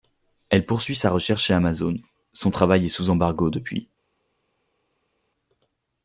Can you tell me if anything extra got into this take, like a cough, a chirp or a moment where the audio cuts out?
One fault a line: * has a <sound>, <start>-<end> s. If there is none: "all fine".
all fine